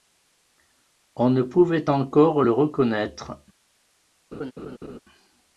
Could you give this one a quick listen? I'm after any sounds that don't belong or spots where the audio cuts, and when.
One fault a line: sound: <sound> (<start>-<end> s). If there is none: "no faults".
sound: laugh (4.3-5.0 s)